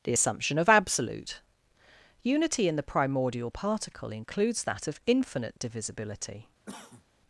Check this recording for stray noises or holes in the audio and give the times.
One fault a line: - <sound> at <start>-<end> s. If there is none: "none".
- cough at 6.7-7.0 s